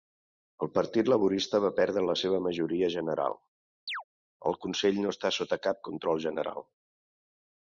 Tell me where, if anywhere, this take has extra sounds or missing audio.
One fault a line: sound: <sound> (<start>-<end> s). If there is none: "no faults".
sound: chirp (3.9-4.0 s)